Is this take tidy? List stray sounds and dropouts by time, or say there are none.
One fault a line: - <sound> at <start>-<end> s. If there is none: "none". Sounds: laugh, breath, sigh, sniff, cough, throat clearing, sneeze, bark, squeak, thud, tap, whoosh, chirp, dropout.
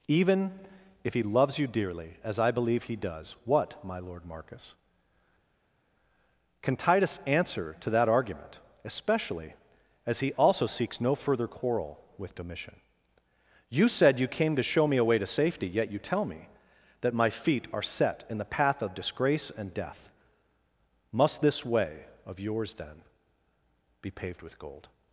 none